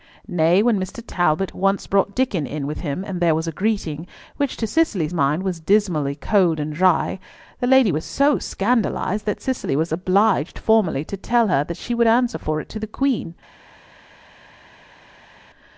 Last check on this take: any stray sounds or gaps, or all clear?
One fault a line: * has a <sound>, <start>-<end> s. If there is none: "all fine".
all fine